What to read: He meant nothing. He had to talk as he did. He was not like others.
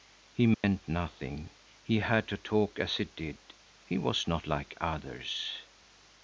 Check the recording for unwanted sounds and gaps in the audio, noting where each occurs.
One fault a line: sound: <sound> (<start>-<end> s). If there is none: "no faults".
sound: dropout (0.5-0.6 s)